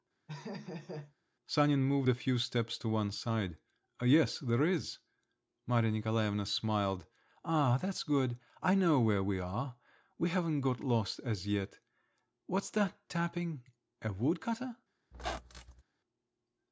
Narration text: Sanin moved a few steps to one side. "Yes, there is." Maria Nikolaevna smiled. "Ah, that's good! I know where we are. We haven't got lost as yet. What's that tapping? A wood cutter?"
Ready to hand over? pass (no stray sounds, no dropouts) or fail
fail